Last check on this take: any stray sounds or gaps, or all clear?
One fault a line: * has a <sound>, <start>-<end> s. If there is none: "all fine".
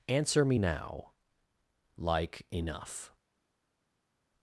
all fine